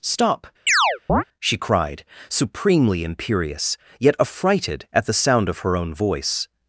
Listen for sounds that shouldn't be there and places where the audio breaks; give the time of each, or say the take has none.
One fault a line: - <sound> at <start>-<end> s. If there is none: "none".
- chirp at 0.7-1.2 s